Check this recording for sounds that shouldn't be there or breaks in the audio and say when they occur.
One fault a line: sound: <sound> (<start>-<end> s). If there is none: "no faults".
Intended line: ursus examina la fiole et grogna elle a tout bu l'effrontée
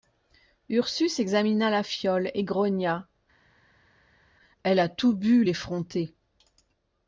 no faults